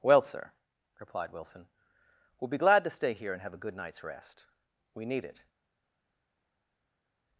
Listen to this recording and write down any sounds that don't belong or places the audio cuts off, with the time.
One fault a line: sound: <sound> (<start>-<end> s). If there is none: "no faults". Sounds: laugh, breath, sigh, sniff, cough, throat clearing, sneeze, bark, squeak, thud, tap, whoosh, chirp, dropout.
no faults